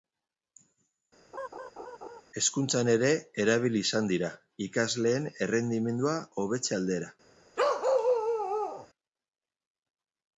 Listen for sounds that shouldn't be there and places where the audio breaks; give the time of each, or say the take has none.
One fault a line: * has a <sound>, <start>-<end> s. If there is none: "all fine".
* has a laugh, 1.3-2.2 s
* has a bark, 7.6-8.9 s